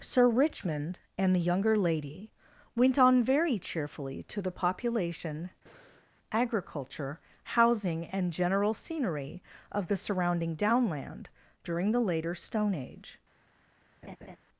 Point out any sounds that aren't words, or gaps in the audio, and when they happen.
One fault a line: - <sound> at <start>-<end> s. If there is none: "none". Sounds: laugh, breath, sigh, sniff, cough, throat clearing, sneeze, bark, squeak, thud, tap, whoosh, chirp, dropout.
- breath at 5.7-6.1 s
- laugh at 14.0-14.4 s